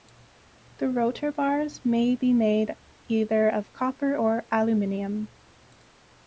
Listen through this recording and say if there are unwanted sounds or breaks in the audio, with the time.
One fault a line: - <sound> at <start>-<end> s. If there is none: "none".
none